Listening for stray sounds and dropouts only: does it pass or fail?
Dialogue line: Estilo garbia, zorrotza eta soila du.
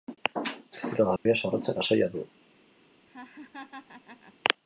fail